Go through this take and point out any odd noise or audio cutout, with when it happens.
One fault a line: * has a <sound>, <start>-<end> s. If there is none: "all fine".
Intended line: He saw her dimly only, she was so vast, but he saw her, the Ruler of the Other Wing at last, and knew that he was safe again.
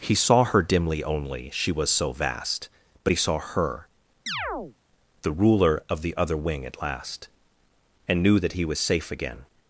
* has a chirp, 4.3-4.8 s